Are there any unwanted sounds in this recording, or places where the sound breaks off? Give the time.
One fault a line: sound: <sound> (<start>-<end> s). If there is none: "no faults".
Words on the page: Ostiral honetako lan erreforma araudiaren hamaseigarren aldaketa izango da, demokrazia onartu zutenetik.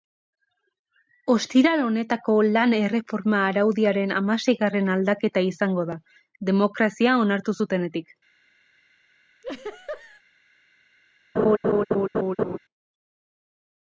sound: laugh (9.4-10.2 s)
sound: laugh (11.4-12.6 s)